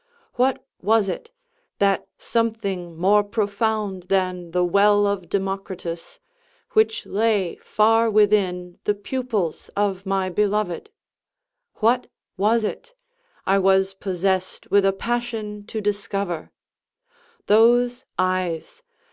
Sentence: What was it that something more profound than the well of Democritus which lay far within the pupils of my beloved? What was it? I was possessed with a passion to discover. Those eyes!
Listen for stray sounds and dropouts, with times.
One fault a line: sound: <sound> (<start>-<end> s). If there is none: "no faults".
no faults